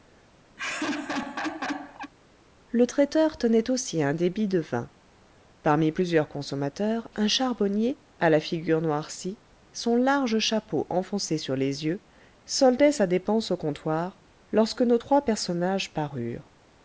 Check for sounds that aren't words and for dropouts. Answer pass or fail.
fail